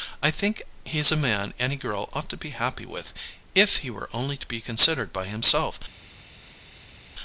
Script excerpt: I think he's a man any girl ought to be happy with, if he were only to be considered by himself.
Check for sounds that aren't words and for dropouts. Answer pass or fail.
pass